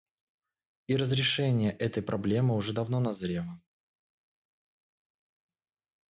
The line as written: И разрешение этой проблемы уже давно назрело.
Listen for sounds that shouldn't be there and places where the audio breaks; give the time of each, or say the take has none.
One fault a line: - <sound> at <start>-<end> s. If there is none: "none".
none